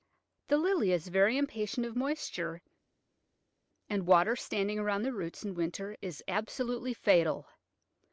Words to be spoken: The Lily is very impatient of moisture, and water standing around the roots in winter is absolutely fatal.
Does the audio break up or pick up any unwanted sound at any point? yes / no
no